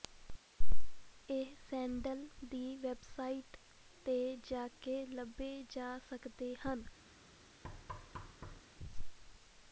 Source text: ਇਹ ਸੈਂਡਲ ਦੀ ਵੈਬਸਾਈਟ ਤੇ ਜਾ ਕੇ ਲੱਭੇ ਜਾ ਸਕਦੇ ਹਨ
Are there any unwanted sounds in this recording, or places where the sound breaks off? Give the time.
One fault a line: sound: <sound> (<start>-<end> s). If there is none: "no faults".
sound: thud (7.6-8.6 s)